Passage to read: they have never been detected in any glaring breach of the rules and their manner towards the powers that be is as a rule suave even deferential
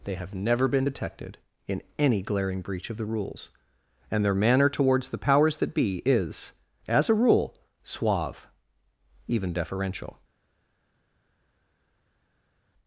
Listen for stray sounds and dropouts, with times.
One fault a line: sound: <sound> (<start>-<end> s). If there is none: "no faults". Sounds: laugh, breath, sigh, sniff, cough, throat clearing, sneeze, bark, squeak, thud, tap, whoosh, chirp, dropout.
no faults